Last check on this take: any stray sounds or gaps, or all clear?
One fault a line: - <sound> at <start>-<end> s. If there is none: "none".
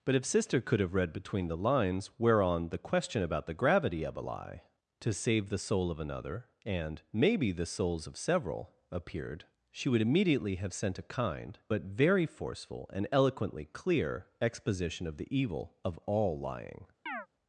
- chirp at 17.1-17.3 s